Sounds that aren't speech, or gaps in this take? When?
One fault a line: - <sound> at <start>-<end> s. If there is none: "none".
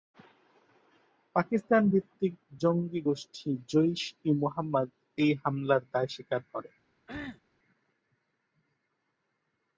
- cough at 7.1-7.4 s